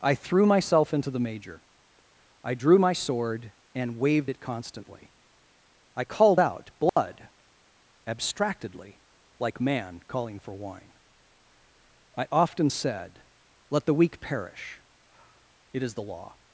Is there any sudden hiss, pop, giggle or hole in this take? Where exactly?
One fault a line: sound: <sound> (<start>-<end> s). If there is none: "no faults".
sound: dropout (6.9-7.0 s)